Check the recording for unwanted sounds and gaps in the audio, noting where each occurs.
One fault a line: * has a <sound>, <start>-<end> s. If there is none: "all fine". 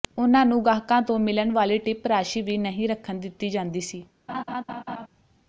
* has a laugh, 4.3-5.1 s